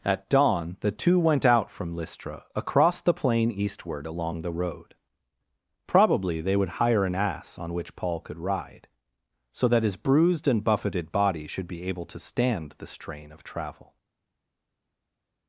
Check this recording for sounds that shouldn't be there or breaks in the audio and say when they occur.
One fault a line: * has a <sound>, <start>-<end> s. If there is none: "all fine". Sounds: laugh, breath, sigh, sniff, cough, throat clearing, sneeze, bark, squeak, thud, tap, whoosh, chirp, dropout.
all fine